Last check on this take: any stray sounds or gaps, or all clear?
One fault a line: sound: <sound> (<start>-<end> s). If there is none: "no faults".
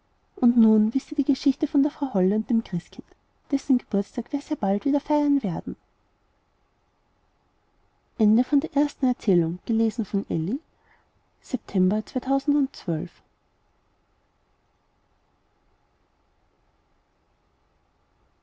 no faults